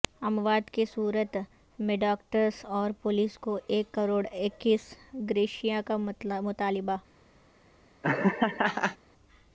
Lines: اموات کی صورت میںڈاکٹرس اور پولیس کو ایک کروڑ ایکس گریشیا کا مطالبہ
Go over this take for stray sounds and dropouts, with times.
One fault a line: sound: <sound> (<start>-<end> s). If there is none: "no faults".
sound: laugh (8.0-9.0 s)